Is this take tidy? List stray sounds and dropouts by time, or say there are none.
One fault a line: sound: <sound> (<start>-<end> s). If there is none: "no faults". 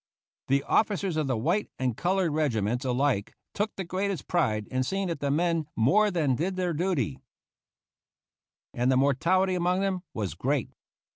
no faults